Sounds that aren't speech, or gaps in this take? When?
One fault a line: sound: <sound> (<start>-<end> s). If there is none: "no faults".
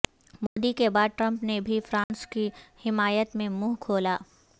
sound: dropout (0.5-0.6 s)
sound: dropout (2.0-2.1 s)